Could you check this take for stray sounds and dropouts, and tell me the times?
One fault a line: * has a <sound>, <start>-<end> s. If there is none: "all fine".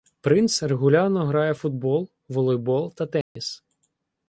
* has a dropout, 3.2-3.4 s